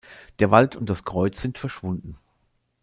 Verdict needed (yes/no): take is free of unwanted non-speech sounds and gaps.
yes